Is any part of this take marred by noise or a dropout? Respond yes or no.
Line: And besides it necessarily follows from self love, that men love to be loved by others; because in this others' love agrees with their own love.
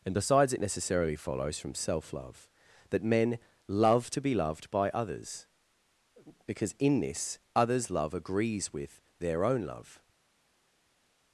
no